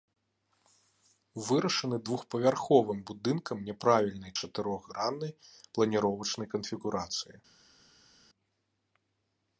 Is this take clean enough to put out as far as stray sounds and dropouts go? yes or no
yes